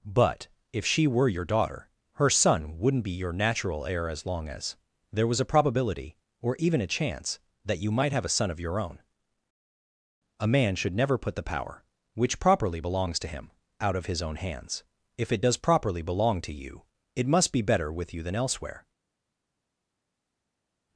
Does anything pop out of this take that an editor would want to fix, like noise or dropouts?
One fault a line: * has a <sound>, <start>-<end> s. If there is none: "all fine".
all fine